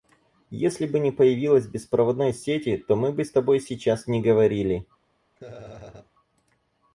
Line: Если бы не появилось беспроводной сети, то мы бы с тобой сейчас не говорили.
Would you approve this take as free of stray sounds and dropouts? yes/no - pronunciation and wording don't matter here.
no